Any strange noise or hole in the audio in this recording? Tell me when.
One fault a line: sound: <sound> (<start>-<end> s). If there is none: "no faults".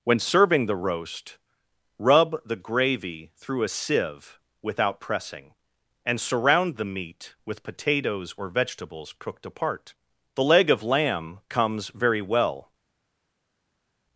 no faults